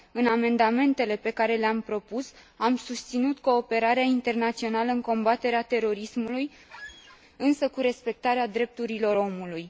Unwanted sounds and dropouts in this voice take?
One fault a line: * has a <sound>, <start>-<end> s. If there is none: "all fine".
* has a squeak, 6.7-7.2 s